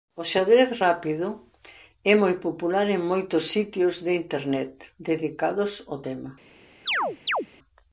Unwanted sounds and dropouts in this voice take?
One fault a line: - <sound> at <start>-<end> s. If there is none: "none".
- chirp at 6.9-7.5 s